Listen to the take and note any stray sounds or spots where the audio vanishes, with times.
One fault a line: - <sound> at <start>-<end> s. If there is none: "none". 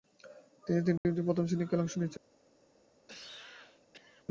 - dropout at 1.0-1.0 s
- cough at 3.1-4.3 s